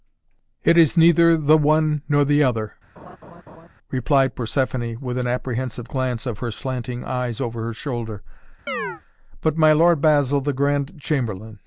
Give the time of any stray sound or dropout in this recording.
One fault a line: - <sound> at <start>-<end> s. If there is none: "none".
- laugh at 3.0-3.7 s
- chirp at 8.7-9.0 s